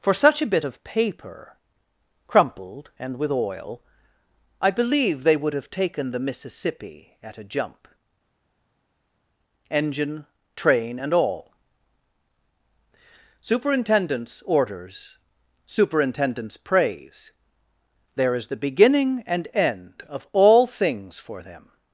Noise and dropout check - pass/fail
pass